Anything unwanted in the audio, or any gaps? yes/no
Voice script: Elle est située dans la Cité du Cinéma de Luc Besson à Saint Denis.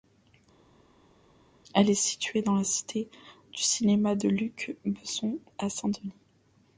no